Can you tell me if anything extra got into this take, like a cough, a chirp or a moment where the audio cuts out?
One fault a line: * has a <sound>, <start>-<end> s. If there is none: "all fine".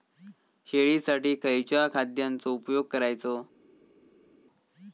all fine